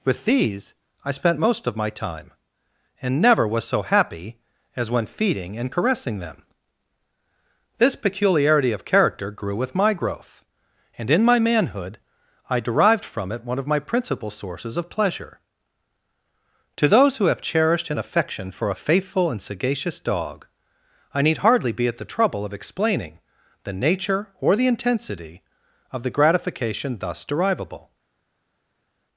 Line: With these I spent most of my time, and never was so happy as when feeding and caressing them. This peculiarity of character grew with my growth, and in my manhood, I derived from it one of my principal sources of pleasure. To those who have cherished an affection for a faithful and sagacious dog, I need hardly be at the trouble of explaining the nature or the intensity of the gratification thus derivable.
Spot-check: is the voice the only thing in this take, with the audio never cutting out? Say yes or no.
yes